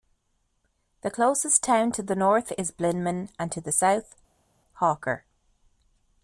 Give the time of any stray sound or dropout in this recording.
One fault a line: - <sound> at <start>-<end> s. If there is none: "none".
none